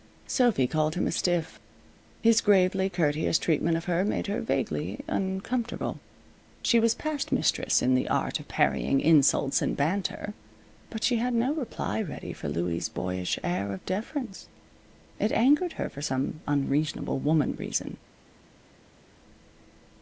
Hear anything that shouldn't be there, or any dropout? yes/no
no